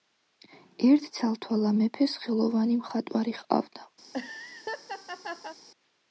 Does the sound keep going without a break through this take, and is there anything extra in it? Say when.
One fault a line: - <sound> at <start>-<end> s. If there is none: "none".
- laugh at 4.0-5.6 s